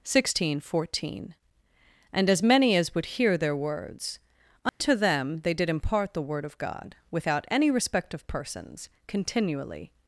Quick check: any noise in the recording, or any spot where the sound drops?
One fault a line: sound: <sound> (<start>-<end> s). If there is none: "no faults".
sound: dropout (4.7-4.8 s)